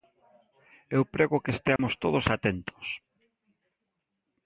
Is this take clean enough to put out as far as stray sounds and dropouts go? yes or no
no